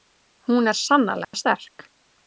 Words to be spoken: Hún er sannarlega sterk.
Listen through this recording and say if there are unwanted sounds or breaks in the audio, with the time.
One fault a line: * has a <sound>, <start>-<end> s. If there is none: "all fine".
* has a dropout, 1.2-1.3 s